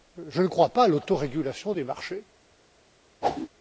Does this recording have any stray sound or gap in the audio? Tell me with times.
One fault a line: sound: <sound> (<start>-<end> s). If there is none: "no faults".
sound: whoosh (3.2-3.5 s)